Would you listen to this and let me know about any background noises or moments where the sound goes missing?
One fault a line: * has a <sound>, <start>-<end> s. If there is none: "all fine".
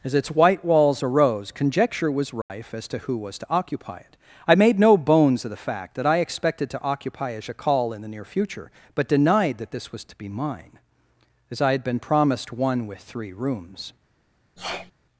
* has a dropout, 2.4-2.5 s
* has a sneeze, 14.6-14.9 s